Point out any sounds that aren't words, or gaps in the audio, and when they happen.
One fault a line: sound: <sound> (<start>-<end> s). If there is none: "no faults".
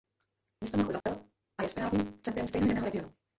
sound: dropout (1.0-1.1 s)